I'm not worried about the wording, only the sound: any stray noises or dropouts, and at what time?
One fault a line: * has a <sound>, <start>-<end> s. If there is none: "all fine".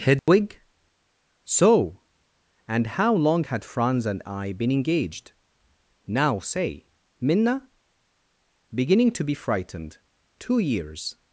* has a dropout, 0.2-0.3 s